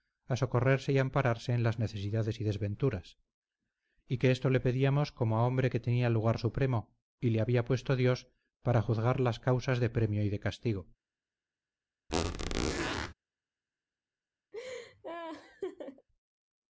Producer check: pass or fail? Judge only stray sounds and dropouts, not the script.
fail